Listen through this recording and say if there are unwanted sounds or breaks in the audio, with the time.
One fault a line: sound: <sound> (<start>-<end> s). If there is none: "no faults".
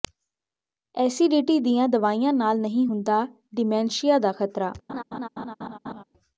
sound: laugh (4.9-6.0 s)